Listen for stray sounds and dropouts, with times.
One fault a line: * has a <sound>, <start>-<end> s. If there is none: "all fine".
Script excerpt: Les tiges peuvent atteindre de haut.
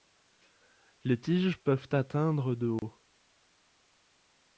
* has a dropout, 2.8-2.8 s